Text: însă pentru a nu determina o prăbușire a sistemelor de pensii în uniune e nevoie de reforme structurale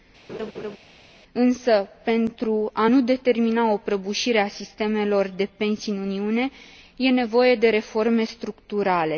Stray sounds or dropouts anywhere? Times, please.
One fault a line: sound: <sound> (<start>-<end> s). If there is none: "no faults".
sound: laugh (0.3-0.8 s)